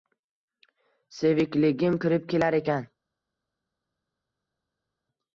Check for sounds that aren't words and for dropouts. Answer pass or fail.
pass